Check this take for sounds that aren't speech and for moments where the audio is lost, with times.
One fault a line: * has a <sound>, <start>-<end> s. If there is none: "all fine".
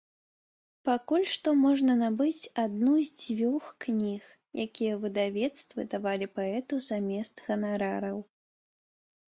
all fine